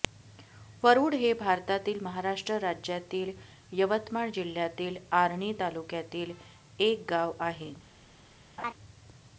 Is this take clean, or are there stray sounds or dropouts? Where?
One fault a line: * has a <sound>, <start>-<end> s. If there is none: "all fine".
* has a laugh, 8.6-8.7 s